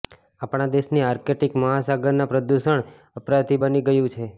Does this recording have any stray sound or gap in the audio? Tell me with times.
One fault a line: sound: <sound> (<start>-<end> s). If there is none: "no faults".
no faults